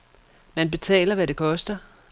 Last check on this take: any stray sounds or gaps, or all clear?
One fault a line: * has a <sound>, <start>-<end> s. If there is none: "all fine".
all fine